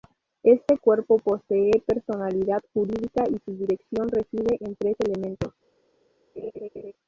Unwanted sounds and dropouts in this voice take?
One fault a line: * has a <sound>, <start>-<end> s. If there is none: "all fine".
* has a laugh, 6.4-6.9 s